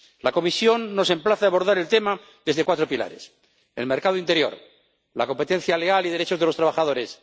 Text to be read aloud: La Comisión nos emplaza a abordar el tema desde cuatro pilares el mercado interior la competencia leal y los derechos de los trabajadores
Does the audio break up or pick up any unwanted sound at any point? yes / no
no